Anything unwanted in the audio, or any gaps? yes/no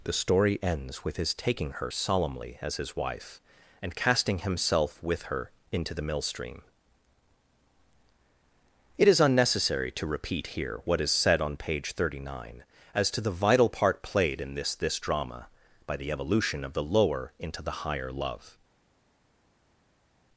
no